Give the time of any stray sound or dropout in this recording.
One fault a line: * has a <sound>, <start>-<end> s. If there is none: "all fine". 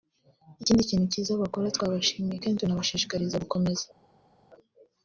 all fine